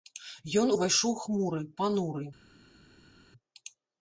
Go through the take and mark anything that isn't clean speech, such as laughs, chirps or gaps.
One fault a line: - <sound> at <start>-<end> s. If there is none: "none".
none